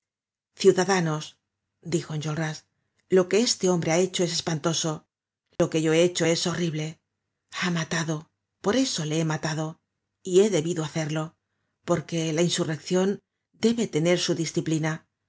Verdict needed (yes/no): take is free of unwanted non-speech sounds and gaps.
no